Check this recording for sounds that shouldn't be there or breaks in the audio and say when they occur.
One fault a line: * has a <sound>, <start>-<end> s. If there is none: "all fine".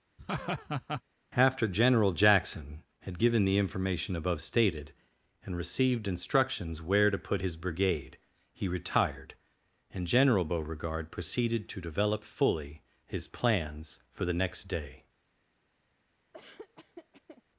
* has a laugh, 0.2-1.0 s
* has a laugh, 16.3-17.4 s